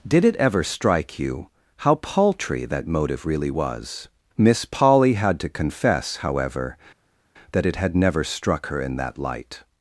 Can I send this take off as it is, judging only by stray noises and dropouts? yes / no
yes